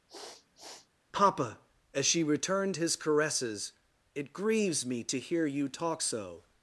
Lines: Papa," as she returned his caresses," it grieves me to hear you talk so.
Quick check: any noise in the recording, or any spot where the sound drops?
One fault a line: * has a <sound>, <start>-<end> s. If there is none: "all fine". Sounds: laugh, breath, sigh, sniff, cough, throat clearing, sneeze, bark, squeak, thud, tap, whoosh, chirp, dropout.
* has a sniff, 0.1-0.9 s